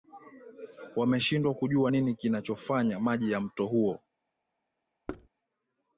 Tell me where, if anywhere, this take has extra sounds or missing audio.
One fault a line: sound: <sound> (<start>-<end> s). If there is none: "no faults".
sound: thud (5.1-5.3 s)